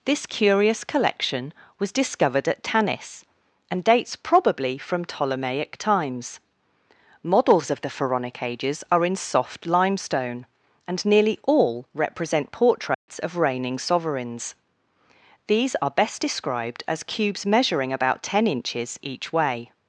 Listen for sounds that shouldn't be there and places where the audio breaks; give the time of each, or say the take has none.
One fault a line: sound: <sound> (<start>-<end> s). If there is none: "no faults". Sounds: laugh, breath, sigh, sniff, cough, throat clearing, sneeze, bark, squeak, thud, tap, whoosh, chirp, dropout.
sound: dropout (12.9-13.1 s)